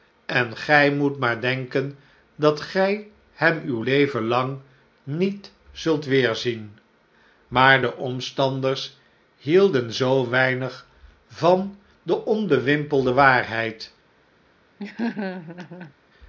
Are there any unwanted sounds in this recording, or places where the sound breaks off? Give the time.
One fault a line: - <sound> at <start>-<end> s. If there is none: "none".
- laugh at 14.8-15.9 s